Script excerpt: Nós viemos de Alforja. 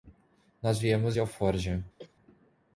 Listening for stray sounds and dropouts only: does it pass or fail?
fail